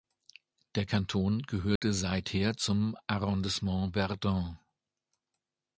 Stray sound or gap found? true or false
true